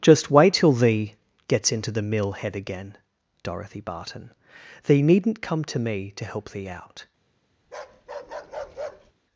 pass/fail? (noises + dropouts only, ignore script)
fail